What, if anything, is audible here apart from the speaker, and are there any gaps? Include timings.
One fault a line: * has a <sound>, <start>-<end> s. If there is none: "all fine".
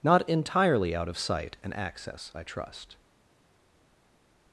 all fine